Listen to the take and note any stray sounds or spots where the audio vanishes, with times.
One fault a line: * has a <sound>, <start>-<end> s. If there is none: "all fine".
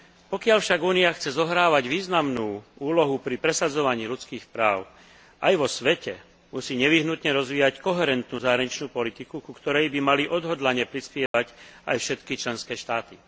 * has a dropout, 11.3-11.3 s